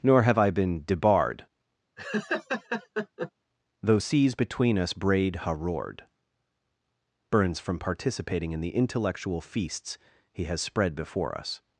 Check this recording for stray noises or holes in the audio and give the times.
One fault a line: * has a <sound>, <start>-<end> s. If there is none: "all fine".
* has a laugh, 2.0-3.3 s